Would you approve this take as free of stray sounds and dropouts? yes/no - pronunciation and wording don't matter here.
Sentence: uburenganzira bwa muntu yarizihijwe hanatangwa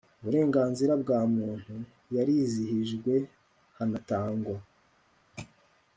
yes